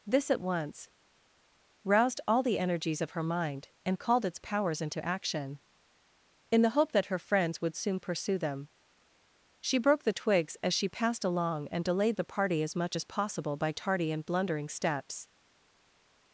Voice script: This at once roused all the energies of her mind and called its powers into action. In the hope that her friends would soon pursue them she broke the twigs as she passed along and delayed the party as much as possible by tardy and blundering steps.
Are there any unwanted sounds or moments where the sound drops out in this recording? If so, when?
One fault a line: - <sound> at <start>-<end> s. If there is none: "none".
none